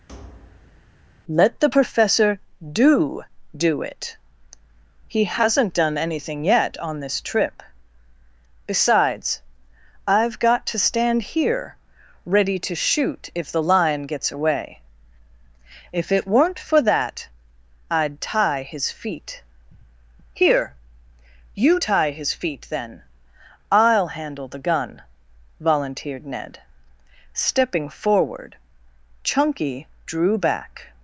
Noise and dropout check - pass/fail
fail